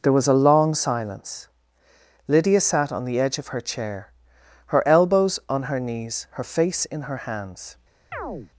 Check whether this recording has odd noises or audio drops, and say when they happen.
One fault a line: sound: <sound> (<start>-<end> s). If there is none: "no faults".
sound: chirp (8.1-8.5 s)